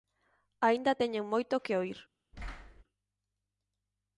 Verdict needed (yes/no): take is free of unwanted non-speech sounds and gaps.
no